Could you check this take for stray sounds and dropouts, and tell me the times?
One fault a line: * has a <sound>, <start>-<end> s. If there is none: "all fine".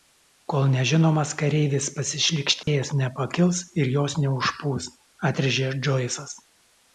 * has a dropout, 2.6-2.7 s